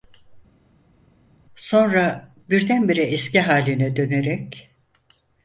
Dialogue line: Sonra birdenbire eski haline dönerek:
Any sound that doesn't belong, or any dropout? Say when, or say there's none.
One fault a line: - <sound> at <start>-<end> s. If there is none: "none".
none